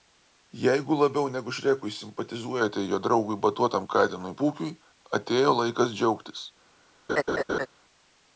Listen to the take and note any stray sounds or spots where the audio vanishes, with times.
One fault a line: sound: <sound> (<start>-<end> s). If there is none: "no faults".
sound: laugh (7.1-7.7 s)